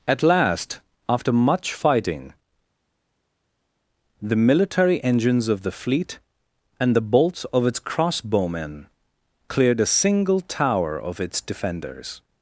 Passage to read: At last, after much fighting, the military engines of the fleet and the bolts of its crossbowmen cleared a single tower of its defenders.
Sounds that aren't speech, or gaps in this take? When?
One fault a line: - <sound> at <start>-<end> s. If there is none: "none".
none